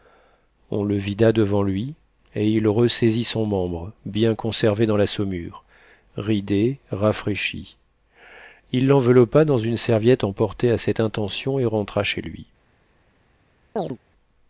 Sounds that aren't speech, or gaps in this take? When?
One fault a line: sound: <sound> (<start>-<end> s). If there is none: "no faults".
sound: chirp (13.8-14.0 s)